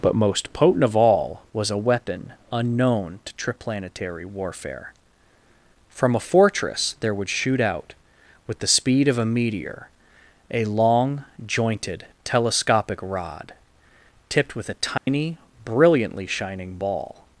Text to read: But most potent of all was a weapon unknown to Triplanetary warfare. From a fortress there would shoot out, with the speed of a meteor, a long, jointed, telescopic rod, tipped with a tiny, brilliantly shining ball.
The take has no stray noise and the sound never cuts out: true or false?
false